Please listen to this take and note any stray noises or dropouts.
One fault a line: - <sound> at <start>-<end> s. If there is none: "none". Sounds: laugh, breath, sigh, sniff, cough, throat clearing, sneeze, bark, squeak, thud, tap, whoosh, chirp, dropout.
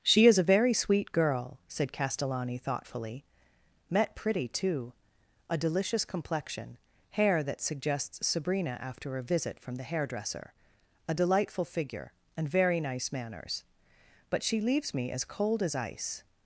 none